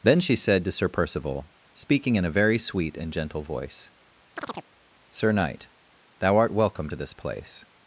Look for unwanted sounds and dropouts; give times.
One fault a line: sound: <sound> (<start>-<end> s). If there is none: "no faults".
sound: chirp (4.4-4.7 s)